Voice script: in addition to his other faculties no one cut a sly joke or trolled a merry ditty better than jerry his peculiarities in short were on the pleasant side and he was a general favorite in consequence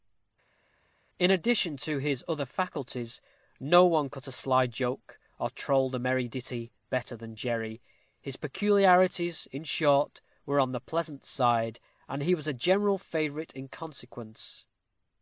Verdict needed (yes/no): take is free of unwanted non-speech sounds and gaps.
yes